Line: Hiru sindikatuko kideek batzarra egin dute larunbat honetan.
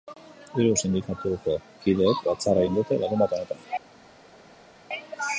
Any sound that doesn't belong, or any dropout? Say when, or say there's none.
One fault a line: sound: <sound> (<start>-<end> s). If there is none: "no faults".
no faults